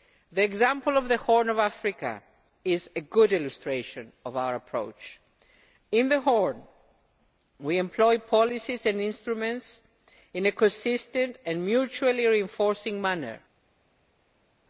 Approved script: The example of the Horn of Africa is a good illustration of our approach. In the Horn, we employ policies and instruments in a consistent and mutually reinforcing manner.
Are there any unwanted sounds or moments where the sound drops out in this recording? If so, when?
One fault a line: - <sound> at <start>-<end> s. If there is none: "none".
none